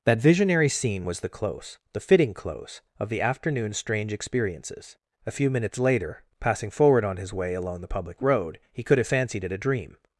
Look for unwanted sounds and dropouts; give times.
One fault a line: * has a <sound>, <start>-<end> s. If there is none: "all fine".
all fine